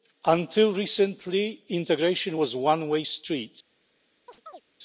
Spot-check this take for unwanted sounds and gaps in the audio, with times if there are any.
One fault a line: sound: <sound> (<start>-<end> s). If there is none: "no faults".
sound: chirp (4.3-4.6 s)